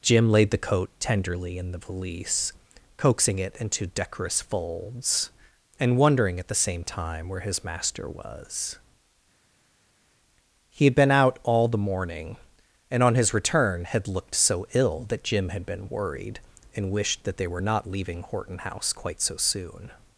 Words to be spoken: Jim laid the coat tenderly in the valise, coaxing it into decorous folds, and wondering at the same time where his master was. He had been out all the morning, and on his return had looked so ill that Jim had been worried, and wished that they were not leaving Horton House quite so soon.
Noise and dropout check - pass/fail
pass